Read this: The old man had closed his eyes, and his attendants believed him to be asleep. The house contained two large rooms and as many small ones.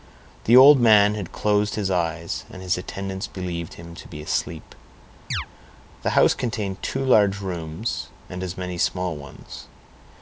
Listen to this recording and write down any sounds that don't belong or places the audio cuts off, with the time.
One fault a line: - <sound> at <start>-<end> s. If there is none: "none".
- chirp at 5.3-5.5 s